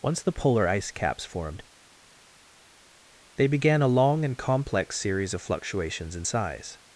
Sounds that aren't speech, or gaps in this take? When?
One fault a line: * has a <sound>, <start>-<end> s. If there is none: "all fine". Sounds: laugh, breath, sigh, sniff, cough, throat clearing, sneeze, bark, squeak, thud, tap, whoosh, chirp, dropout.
all fine